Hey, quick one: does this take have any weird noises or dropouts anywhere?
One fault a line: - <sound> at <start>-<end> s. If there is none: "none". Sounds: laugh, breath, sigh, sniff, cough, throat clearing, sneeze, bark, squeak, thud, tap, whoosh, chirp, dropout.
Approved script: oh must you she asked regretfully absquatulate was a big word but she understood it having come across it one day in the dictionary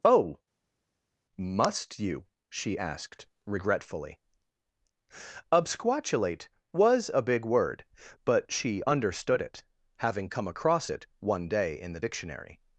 none